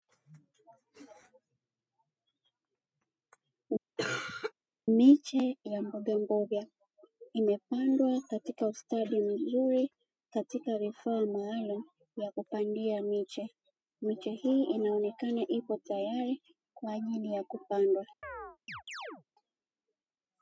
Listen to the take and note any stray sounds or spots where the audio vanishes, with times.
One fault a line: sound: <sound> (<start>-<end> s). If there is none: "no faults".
sound: cough (4.0-4.5 s)
sound: chirp (18.2-19.2 s)